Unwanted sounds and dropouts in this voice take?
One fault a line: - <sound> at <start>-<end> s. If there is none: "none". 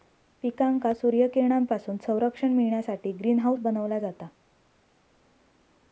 none